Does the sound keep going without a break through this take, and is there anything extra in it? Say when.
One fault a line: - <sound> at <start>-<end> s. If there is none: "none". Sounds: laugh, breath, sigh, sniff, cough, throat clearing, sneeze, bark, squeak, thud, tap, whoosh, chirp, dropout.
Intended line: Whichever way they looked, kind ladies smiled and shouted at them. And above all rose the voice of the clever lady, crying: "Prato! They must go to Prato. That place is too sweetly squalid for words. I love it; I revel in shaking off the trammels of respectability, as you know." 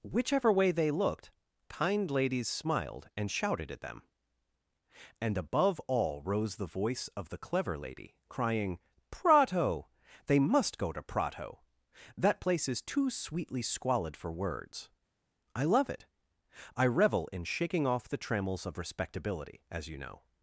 none